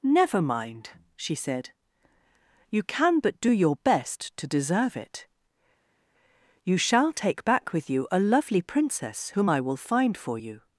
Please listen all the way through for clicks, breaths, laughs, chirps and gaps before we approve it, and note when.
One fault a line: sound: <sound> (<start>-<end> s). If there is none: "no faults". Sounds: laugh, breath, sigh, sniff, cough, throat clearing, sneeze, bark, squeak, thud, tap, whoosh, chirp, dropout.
no faults